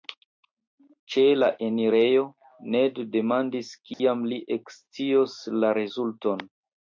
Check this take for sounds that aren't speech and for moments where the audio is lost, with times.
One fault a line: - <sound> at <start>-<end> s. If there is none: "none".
- dropout at 3.9-4.0 s